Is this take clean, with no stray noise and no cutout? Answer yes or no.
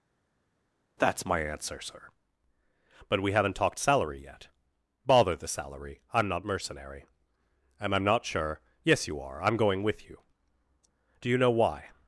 yes